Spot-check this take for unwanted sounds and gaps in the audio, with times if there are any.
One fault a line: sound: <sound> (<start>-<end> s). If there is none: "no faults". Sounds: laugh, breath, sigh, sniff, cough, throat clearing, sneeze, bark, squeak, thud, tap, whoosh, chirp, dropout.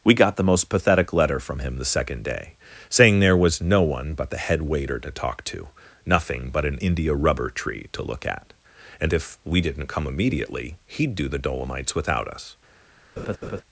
sound: laugh (13.2-13.6 s)